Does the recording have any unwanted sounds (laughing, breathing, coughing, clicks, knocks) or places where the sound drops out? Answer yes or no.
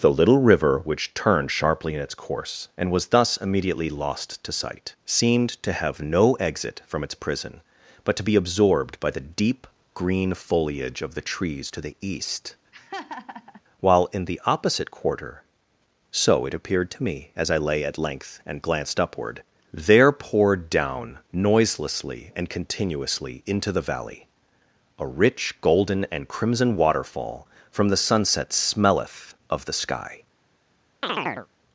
yes